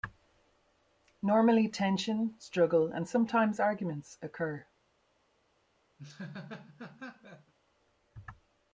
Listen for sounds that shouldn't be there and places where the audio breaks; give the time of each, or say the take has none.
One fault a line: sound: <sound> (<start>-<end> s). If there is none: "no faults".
sound: laugh (6.0-7.5 s)